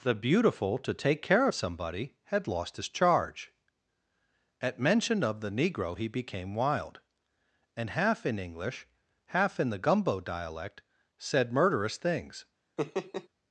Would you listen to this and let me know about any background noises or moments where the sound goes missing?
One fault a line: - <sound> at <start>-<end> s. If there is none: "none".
- laugh at 12.8-13.3 s